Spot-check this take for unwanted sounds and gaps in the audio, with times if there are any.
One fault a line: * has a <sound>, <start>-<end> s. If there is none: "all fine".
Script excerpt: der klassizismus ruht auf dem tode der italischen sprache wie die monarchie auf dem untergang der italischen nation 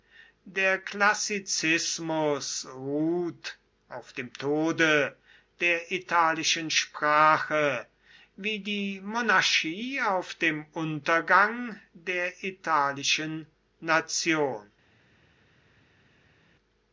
all fine